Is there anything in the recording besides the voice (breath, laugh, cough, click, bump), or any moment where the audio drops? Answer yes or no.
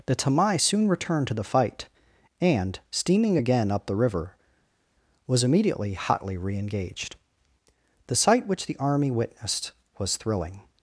no